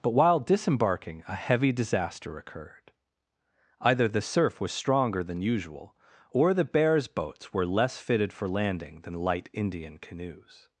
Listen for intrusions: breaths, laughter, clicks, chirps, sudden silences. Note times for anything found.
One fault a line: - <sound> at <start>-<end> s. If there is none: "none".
none